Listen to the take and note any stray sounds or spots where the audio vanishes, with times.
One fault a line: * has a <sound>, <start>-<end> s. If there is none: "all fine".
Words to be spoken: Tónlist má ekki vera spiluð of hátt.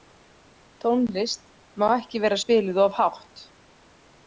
all fine